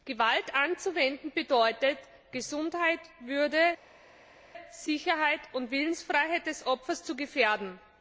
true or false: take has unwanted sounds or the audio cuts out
false